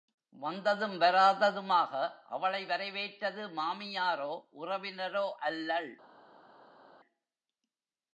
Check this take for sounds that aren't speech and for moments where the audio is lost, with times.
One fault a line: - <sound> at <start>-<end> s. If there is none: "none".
none